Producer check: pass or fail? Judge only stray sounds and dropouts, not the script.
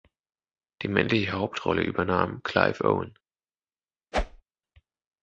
fail